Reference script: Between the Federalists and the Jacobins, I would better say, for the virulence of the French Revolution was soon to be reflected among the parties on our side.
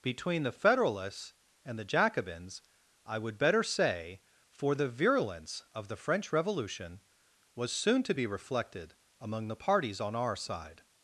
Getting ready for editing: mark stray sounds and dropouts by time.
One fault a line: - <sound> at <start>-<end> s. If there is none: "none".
none